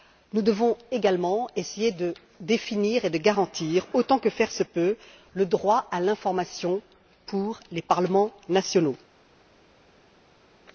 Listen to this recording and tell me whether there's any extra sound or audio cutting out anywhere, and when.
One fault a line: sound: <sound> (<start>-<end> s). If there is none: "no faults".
no faults